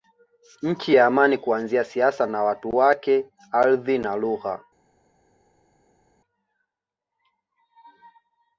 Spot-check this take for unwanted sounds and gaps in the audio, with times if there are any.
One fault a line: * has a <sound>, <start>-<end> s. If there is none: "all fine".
all fine